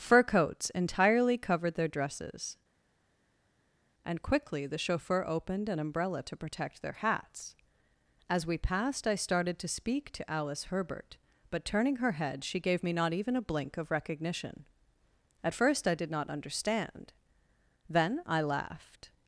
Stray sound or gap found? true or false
false